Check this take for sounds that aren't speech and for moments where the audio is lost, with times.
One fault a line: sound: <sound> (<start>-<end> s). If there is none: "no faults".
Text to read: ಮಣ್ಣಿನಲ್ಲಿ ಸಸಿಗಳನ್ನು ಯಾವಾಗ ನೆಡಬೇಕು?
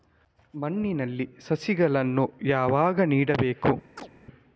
sound: chirp (4.0-4.1 s)